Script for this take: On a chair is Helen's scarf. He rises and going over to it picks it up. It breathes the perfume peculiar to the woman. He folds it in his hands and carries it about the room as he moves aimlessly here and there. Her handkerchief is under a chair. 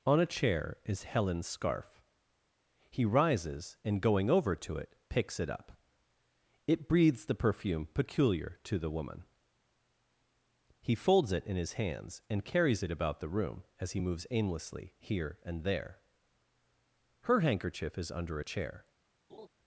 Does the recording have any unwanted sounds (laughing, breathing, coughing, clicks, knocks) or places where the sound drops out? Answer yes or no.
yes